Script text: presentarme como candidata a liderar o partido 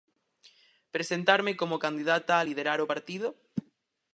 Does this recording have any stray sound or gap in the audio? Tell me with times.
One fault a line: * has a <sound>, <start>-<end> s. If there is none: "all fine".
all fine